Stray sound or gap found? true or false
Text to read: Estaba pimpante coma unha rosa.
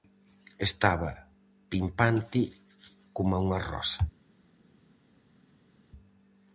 false